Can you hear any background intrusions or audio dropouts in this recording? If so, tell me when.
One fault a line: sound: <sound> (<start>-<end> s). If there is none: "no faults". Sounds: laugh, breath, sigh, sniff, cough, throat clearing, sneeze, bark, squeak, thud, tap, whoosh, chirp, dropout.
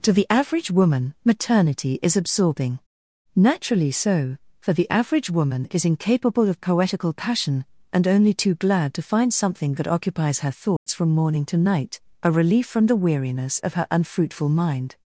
sound: dropout (10.8-10.9 s)